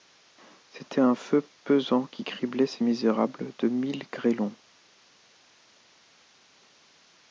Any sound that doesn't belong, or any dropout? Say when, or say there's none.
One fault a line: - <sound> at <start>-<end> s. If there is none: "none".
none